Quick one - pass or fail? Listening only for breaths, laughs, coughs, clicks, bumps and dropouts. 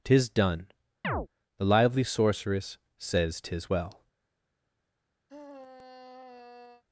fail